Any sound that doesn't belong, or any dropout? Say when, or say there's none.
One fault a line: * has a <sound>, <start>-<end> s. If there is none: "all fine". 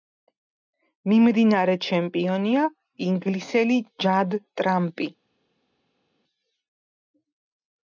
all fine